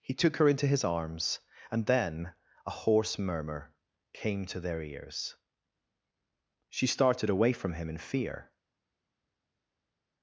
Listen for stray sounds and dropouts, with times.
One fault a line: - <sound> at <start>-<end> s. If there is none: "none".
none